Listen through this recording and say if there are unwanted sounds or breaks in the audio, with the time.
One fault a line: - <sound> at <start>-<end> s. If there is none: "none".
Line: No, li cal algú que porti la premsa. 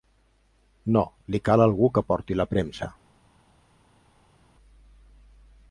none